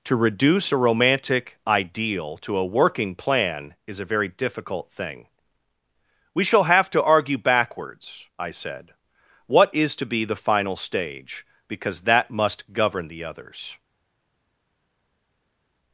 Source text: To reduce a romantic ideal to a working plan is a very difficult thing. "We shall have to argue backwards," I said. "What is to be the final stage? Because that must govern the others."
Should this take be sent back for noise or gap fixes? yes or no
no